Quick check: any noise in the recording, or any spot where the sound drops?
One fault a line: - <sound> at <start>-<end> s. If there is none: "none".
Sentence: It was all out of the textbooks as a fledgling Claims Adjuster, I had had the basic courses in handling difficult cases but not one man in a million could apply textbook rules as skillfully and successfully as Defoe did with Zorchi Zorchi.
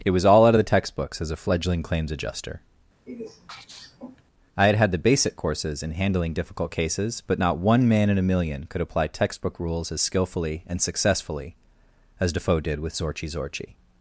- sneeze at 3.1-4.2 s